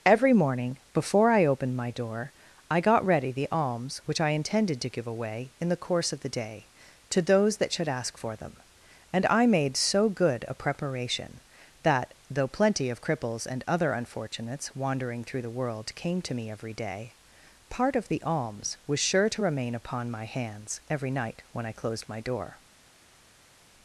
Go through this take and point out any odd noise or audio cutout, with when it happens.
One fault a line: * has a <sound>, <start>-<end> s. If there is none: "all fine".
all fine